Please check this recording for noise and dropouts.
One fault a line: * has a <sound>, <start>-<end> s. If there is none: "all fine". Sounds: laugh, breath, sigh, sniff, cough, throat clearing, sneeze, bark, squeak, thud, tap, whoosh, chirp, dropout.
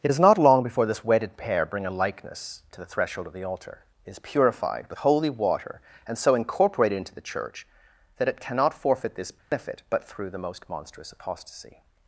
* has a dropout, 9.4-9.5 s